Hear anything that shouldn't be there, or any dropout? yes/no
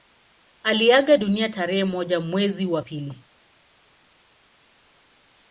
no